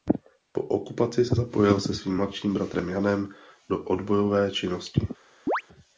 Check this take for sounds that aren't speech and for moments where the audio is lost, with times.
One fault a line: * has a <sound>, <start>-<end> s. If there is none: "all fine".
* has a chirp, 5.5-5.6 s